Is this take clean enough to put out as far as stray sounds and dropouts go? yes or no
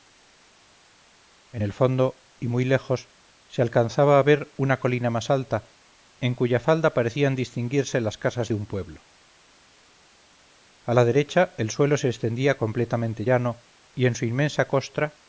yes